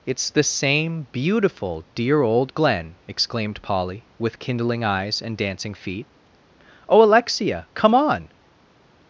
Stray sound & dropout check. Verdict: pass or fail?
pass